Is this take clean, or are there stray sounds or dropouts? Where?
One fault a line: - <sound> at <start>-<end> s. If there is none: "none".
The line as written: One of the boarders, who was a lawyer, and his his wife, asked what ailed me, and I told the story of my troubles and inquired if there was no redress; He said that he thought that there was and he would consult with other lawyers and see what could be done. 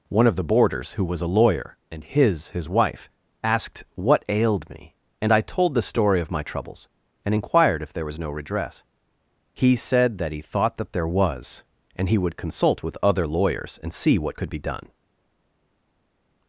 none